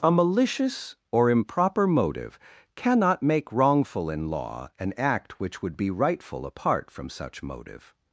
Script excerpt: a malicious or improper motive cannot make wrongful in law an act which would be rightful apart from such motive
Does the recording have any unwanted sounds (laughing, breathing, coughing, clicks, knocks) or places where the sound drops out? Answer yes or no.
no